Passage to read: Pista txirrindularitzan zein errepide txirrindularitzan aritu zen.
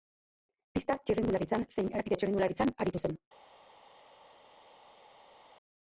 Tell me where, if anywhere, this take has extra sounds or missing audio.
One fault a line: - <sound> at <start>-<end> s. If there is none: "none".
none